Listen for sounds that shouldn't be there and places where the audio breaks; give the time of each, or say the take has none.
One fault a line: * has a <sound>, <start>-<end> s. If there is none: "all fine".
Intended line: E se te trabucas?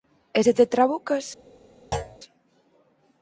* has a thud, 1.9-2.2 s